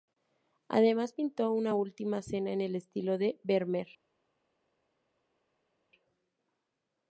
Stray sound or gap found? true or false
false